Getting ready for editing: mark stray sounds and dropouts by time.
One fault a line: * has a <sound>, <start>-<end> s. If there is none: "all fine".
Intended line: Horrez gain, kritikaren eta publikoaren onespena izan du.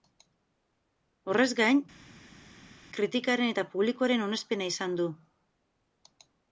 all fine